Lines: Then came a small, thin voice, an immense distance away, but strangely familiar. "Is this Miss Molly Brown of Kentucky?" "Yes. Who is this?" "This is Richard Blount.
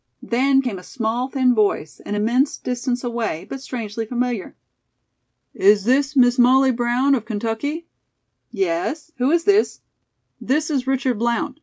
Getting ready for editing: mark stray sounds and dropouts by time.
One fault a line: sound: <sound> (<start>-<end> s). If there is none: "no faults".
no faults